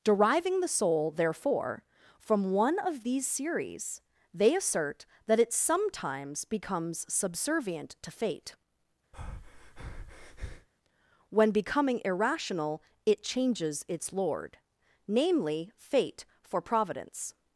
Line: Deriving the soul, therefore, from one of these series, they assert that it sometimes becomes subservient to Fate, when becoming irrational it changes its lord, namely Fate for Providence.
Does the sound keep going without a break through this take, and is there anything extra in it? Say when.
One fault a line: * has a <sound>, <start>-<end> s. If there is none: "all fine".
* has a breath, 9.1-10.7 s